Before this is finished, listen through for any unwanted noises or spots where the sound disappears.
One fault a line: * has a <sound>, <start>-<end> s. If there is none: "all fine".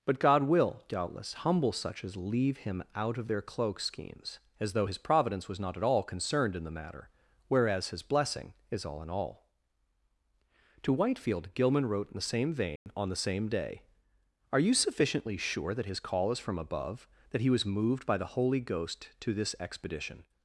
* has a dropout, 12.8-12.9 s